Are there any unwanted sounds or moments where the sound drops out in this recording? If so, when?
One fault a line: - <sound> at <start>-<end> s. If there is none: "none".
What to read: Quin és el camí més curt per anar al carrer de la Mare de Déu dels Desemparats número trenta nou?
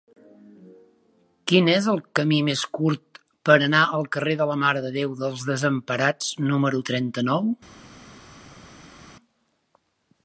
none